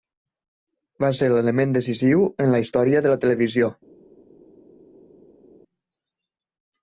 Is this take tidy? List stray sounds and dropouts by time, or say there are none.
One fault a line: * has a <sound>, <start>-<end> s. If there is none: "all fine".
all fine